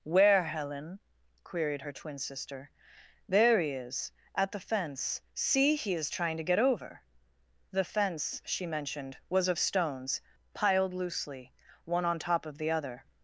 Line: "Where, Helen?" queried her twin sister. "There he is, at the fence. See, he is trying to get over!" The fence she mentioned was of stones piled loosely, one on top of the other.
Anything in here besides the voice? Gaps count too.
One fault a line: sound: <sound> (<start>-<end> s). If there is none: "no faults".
no faults